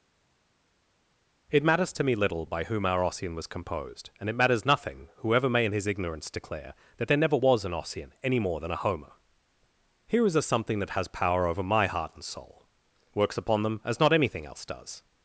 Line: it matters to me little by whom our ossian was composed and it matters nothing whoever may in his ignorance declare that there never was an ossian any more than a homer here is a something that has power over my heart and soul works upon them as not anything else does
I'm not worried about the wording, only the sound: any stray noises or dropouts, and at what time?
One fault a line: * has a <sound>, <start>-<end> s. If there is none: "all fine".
all fine